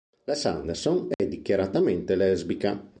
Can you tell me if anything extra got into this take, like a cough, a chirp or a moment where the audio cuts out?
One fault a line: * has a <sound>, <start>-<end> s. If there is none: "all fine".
* has a dropout, 1.1-1.2 s